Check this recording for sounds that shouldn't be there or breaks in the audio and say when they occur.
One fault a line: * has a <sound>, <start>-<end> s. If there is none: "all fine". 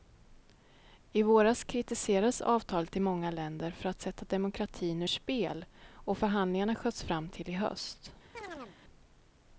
* has a chirp, 8.3-8.8 s